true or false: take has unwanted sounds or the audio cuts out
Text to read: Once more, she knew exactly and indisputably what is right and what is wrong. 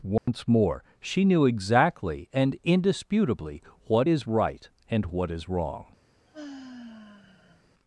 true